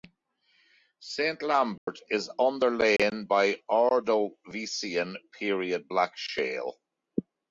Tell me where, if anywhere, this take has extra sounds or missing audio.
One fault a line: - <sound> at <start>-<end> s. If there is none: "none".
- dropout at 1.8-1.9 s
- dropout at 3.0-3.0 s